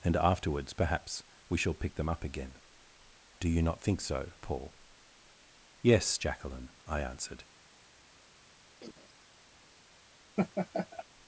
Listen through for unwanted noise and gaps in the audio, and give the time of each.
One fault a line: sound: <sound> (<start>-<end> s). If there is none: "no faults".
sound: cough (8.8-9.1 s)
sound: laugh (10.4-11.0 s)